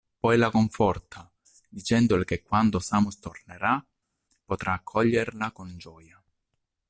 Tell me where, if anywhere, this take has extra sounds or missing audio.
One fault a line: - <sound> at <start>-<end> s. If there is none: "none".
none